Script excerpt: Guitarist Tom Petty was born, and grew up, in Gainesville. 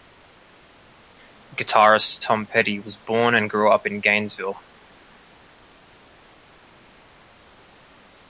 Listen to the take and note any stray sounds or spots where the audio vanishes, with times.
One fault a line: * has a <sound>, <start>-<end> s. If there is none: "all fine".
all fine